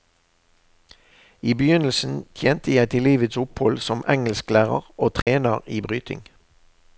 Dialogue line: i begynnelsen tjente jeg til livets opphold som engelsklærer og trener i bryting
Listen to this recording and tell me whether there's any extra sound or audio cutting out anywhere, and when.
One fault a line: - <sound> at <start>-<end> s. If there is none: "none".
- dropout at 5.2-5.3 s